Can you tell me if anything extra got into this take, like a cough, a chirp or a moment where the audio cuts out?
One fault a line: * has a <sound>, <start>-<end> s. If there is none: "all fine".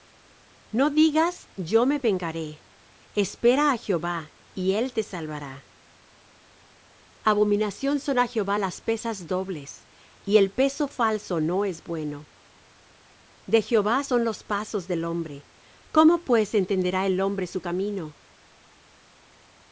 all fine